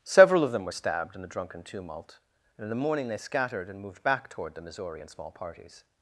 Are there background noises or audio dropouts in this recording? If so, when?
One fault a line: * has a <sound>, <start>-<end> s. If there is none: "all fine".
all fine